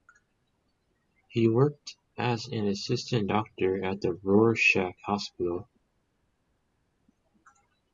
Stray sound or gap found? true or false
false